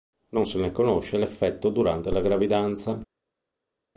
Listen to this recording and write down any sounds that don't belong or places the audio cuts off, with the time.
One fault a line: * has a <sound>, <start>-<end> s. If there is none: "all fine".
all fine